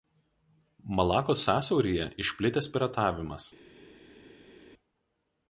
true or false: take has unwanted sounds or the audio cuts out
false